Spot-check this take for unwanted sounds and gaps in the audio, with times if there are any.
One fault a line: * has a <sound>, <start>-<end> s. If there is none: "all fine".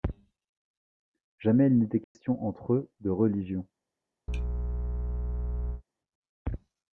* has a dropout, 2.0-2.1 s
* has a sneeze, 4.3-5.8 s